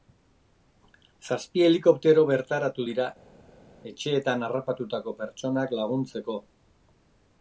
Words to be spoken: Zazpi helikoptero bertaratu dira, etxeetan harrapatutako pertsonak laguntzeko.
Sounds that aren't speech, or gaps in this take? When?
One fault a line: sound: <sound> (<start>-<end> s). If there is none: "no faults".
no faults